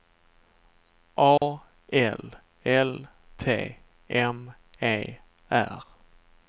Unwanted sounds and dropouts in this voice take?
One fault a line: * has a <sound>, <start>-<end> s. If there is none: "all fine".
* has a dropout, 1.4-1.4 s